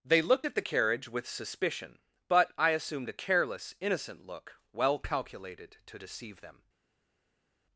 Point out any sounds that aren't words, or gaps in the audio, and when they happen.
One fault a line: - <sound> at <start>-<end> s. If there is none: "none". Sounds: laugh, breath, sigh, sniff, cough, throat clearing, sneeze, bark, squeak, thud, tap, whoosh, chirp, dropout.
none